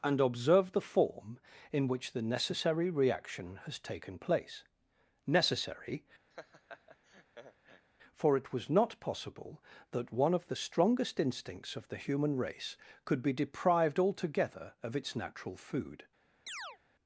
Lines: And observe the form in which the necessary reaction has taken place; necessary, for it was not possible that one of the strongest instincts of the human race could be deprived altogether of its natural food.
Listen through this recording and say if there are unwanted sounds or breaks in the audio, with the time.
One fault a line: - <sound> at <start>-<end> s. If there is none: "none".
- laugh at 6.3-7.9 s
- chirp at 16.5-16.8 s